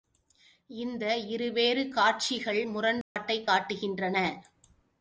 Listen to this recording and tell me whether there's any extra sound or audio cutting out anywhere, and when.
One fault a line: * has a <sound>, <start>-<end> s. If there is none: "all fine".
* has a dropout, 3.0-3.2 s